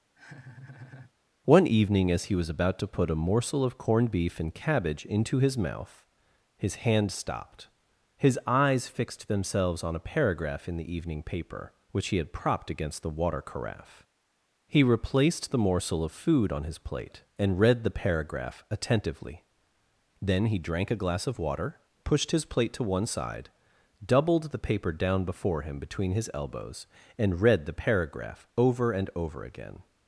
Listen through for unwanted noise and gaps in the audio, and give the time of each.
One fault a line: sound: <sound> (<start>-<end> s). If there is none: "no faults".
sound: laugh (0.1-1.1 s)